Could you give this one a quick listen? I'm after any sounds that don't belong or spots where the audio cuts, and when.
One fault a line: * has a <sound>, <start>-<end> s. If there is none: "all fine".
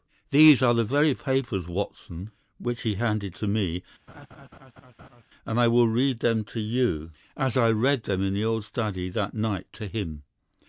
* has a laugh, 4.1-5.2 s